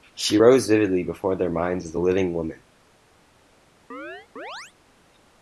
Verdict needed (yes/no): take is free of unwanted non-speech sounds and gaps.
no